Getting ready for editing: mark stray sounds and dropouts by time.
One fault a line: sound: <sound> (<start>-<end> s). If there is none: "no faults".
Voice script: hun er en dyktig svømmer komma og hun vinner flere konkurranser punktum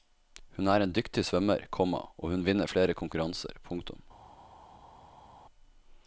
no faults